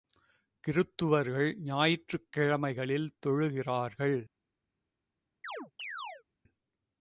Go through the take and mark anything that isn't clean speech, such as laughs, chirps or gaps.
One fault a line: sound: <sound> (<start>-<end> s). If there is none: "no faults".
sound: chirp (5.4-6.2 s)